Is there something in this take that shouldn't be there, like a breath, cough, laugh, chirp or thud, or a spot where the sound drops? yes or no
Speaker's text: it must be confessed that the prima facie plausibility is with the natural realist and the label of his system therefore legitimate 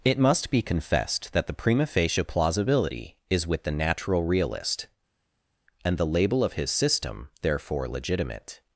no